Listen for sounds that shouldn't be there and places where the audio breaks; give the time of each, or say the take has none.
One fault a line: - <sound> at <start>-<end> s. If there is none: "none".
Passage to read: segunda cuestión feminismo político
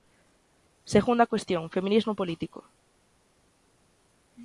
none